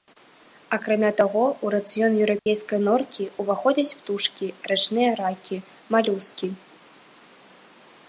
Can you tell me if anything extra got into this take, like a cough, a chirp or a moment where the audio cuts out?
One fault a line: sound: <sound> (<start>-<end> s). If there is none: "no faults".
sound: dropout (2.4-2.5 s)